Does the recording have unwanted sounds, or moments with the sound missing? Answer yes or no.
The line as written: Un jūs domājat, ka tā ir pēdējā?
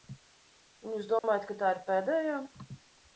yes